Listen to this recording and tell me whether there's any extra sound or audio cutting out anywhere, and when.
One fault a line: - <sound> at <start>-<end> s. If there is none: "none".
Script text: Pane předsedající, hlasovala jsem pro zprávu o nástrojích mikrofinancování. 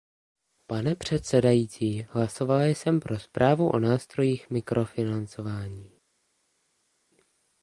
none